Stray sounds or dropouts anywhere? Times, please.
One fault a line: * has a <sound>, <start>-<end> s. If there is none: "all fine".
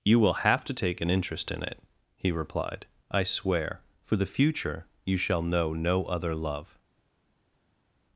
all fine